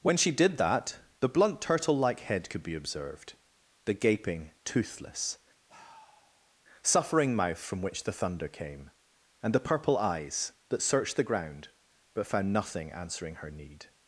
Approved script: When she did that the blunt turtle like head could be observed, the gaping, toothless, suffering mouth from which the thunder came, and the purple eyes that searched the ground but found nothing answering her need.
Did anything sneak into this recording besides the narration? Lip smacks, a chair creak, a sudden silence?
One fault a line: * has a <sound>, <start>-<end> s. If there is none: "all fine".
* has a sigh, 5.7-6.5 s